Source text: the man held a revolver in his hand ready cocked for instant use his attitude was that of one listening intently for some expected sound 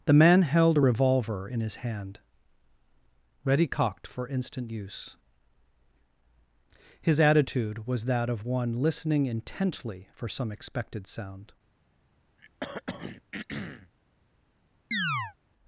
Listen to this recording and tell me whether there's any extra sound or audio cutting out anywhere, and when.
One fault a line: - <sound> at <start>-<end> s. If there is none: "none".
- throat clearing at 12.4-13.9 s
- chirp at 14.9-15.3 s